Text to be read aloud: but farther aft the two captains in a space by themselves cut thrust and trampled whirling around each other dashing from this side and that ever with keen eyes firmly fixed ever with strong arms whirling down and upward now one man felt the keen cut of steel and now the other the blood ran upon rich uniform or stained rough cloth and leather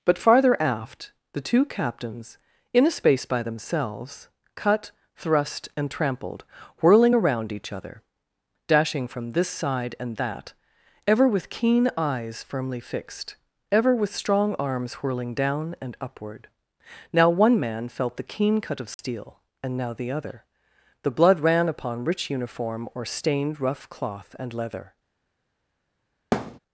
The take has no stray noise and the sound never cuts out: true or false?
false